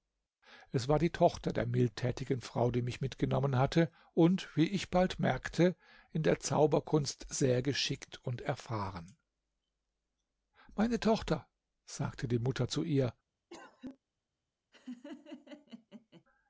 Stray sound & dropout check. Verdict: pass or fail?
fail